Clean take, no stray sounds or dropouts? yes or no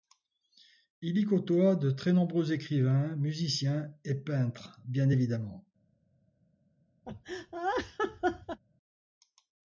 no